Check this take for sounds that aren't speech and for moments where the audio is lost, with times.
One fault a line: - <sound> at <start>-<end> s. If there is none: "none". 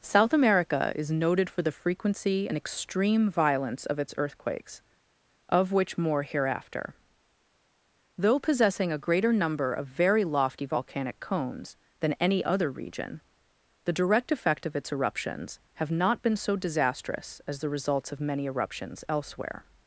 none